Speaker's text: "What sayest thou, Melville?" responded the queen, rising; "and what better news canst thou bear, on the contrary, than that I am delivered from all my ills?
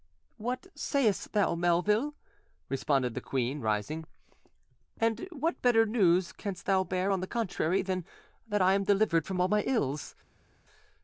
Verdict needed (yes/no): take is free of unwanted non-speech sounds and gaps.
yes